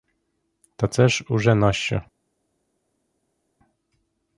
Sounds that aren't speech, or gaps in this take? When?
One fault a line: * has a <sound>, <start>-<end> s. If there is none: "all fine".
all fine